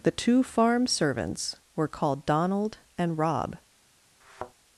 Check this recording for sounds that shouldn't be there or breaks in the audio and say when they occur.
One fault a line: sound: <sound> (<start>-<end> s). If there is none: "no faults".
sound: thud (4.2-4.5 s)